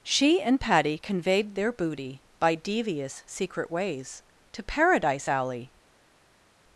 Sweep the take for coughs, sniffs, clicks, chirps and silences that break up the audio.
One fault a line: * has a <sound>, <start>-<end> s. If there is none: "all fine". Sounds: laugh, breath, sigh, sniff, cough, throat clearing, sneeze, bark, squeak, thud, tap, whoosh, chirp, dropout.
all fine